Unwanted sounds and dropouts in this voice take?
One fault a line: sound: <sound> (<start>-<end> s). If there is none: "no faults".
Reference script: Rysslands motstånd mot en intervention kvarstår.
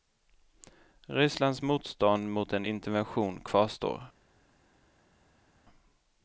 no faults